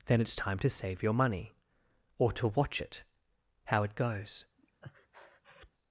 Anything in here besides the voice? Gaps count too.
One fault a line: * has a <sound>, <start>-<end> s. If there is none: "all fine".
* has a breath, 4.6-5.7 s